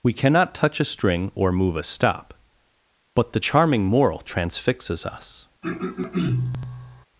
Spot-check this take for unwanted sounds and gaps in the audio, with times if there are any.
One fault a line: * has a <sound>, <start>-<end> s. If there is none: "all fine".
* has a throat clearing, 5.6-7.1 s